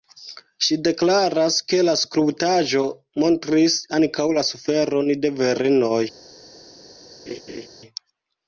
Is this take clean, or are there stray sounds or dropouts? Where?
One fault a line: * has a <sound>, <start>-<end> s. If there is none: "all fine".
* has a laugh, 7.3-7.7 s